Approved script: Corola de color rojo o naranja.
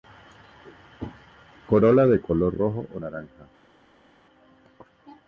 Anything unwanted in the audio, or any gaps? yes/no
no